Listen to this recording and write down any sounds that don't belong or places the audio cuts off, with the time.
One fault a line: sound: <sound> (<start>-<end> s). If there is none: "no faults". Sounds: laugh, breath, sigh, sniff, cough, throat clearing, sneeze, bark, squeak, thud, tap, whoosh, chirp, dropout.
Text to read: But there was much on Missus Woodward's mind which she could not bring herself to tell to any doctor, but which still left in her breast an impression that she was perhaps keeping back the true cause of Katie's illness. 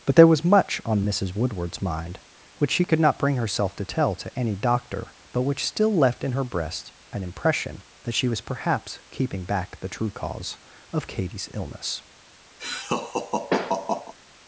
sound: laugh (12.6-14.1 s)